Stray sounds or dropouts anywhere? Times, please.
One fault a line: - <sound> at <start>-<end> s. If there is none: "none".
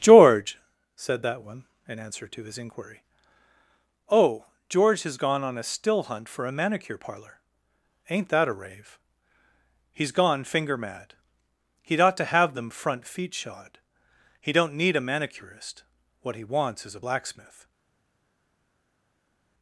none